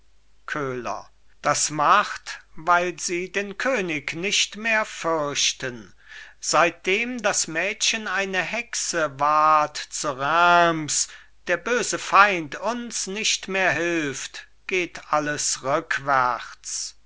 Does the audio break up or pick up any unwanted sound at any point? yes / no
no